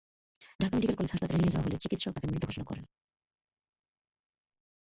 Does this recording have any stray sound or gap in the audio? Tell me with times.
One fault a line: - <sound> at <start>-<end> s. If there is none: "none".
none